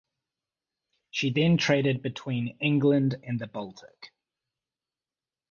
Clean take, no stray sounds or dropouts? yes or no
yes